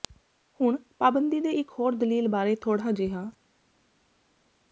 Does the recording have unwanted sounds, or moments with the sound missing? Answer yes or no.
no